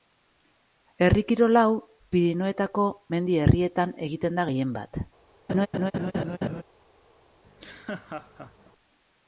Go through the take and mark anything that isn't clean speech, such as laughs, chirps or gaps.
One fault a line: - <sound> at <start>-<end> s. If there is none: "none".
- laugh at 5.5-6.6 s
- laugh at 7.4-8.7 s